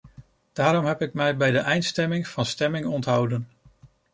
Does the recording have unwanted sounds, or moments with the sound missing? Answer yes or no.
no